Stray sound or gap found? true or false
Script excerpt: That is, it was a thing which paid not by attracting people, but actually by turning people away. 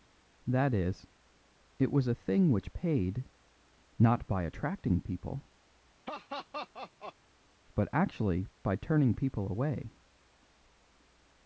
true